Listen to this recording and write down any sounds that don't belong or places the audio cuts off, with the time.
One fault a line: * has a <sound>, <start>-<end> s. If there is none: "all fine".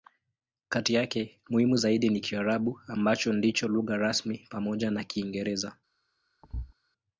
* has a thud, 6.4-6.7 s